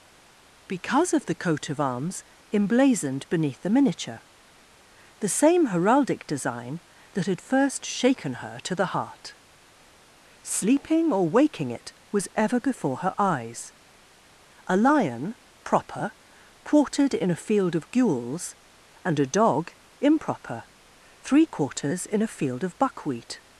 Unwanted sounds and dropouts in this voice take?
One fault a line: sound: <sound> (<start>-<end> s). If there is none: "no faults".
no faults